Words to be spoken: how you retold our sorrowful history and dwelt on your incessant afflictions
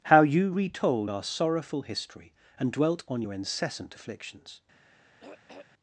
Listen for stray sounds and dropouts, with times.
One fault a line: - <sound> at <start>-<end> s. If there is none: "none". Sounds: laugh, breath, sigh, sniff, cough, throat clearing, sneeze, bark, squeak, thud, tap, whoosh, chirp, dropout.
- throat clearing at 5.2-5.7 s